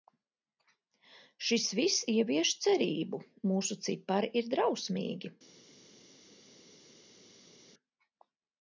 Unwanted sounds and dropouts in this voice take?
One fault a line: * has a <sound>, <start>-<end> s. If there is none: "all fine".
all fine